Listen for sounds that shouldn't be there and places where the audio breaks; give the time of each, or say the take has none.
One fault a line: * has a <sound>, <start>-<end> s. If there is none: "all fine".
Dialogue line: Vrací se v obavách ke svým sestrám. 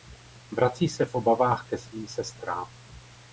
all fine